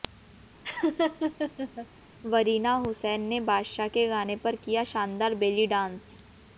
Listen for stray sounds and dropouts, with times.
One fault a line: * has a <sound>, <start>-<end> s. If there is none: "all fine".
* has a laugh, 0.6-1.9 s